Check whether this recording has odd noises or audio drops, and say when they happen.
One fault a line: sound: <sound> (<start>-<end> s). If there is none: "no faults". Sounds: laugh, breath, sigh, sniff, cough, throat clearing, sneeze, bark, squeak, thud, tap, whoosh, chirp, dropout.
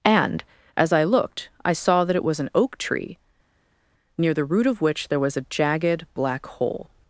no faults